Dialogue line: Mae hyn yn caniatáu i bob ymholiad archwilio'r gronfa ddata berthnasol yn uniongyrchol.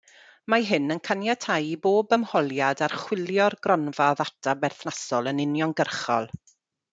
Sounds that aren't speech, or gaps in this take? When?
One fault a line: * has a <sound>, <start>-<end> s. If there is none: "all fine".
all fine